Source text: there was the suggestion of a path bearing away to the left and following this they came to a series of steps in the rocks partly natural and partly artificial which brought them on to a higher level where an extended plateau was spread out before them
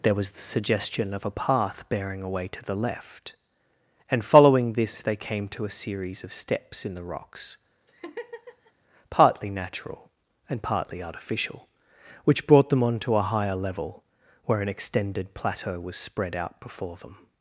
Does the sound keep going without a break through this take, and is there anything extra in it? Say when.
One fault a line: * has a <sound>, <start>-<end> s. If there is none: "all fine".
* has a laugh, 7.9-8.7 s